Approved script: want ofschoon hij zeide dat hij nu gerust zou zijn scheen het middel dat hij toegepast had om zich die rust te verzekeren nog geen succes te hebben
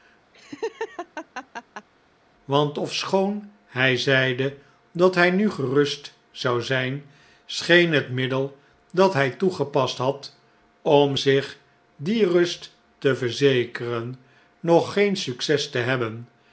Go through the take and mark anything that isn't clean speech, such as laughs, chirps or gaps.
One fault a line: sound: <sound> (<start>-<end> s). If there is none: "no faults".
sound: laugh (0.3-1.9 s)